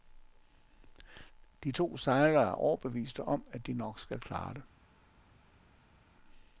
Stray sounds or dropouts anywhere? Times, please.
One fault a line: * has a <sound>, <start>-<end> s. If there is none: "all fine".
all fine